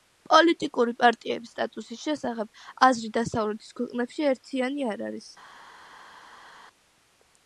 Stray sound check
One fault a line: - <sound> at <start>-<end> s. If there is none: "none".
none